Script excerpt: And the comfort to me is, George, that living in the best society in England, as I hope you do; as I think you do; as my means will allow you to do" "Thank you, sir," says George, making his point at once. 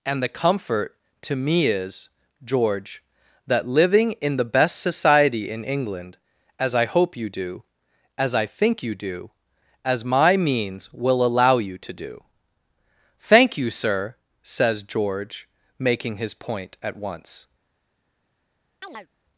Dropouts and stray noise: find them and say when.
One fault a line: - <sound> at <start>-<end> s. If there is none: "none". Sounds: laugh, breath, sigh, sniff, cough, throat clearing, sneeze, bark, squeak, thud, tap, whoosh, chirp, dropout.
- chirp at 18.8-19.1 s